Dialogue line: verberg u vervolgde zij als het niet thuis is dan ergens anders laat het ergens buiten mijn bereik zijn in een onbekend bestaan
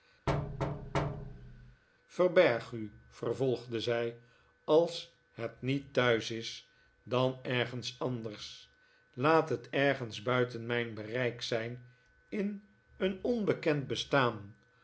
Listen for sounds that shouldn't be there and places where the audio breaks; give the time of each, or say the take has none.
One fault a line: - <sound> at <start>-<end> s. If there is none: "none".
- thud at 0.3-1.8 s